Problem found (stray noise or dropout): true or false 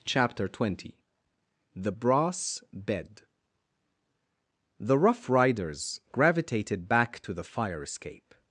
false